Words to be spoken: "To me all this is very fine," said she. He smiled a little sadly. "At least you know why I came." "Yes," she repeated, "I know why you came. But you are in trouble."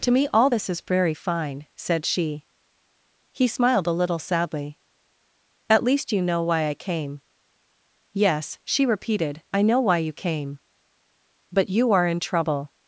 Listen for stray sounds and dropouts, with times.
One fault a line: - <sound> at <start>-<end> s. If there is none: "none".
none